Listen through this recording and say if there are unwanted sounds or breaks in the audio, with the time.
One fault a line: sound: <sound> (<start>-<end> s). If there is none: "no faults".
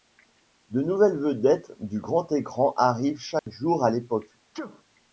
sound: dropout (3.4-3.5 s)
sound: sneeze (4.5-4.8 s)